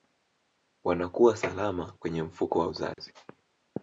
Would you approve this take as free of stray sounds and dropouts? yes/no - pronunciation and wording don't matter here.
no